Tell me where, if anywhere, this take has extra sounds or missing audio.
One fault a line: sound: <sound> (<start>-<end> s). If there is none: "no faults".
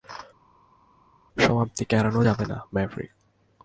no faults